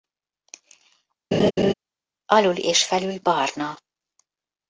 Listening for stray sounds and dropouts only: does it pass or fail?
fail